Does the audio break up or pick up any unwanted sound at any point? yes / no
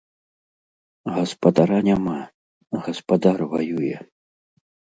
no